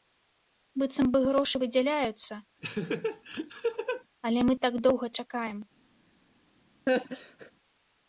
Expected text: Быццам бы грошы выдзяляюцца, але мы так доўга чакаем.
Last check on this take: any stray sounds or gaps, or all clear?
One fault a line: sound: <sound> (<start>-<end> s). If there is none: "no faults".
sound: laugh (2.6-4.0 s)
sound: laugh (6.9-7.5 s)